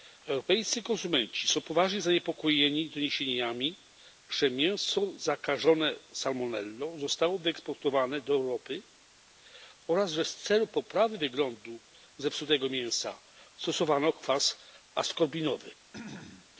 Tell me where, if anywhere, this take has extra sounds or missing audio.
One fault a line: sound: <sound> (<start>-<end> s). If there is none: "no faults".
sound: throat clearing (15.9-16.5 s)